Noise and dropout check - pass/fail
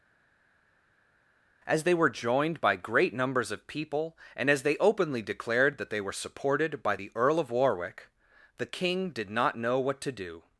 pass